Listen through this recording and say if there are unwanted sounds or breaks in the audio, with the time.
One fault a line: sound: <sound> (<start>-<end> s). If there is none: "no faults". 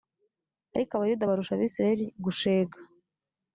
no faults